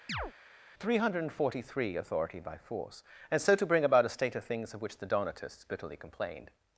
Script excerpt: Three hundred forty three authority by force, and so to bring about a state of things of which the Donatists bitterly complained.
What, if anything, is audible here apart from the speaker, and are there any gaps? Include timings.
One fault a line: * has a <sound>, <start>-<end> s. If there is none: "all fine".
* has a chirp, 0.1-0.3 s